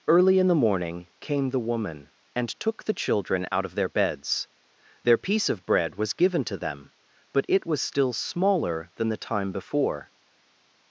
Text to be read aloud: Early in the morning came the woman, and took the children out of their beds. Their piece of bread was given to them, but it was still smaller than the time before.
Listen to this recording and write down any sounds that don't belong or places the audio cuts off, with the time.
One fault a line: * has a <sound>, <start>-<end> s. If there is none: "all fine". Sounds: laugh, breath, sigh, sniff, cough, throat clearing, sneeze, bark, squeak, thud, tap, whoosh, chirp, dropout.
all fine